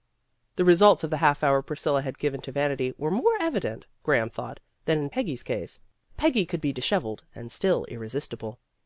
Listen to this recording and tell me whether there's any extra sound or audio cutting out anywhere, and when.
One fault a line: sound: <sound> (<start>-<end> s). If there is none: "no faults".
no faults